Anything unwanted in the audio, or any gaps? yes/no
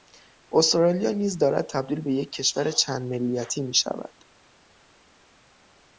no